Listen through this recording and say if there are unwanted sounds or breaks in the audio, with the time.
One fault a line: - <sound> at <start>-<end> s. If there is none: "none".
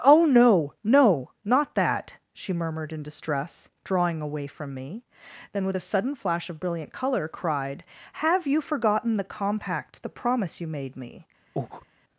- breath at 11.6-11.9 s